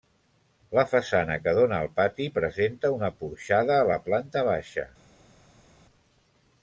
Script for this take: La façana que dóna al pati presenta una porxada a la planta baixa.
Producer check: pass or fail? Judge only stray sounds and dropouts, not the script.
pass